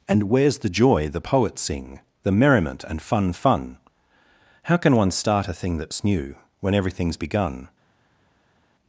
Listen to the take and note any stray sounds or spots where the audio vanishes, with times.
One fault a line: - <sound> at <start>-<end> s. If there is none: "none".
none